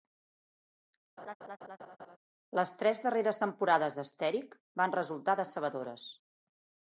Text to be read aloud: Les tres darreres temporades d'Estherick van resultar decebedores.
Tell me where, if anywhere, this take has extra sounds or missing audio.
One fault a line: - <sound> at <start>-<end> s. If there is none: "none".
- laugh at 1.2-2.2 s